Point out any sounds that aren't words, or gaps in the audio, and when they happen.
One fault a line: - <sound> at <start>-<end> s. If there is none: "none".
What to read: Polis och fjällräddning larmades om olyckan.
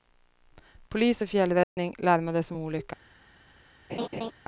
- dropout at 1.6-1.8 s
- laugh at 3.9-4.3 s